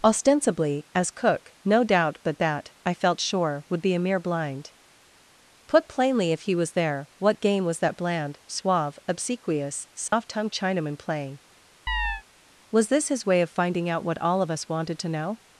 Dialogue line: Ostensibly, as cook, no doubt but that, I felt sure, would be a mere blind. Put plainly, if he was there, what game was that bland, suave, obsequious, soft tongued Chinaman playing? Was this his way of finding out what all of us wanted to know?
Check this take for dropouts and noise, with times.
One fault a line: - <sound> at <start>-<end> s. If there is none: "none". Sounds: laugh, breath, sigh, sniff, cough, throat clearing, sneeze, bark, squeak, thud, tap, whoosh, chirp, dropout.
- dropout at 10.1-10.1 s
- chirp at 11.9-12.2 s